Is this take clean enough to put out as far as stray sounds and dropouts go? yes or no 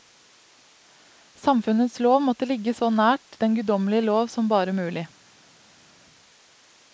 yes